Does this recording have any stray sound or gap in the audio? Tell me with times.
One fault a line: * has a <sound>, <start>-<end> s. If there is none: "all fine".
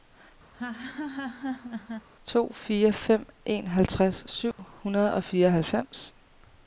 * has a laugh, 0.5-2.1 s
* has a dropout, 4.5-4.6 s